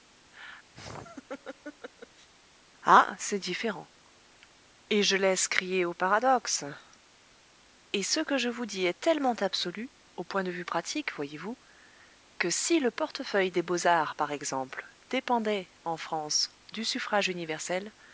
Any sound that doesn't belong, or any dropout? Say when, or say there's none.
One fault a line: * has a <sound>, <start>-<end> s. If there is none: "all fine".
* has a laugh, 0.7-2.3 s